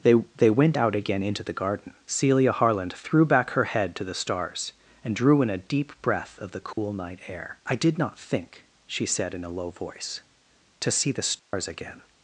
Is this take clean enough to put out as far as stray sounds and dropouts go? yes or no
no